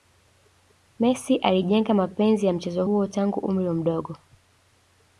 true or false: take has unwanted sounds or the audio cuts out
false